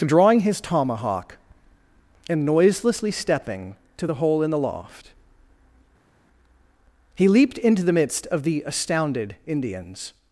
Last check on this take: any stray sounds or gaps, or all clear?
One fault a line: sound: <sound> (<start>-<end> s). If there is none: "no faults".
no faults